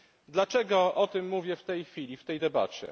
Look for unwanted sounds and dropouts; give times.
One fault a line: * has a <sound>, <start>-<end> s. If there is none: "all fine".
all fine